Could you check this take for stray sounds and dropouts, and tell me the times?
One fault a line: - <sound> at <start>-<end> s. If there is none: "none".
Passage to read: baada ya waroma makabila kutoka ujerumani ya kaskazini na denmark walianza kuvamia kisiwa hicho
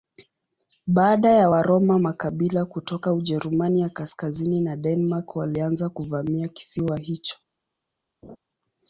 - laugh at 8.2-8.4 s